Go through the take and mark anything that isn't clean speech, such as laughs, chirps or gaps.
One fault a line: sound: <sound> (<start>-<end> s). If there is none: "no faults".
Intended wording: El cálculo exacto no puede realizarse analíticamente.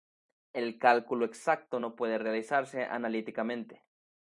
no faults